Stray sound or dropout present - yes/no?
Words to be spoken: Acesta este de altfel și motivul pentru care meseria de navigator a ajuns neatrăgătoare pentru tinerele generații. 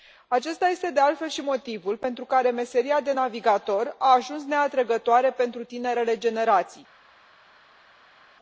no